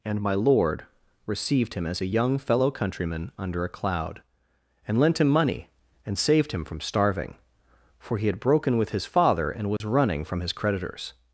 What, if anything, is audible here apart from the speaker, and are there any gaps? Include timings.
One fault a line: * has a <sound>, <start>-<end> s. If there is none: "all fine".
* has a dropout, 9.8-9.8 s